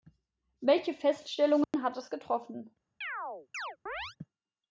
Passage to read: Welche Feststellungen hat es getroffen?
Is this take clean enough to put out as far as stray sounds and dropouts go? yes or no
no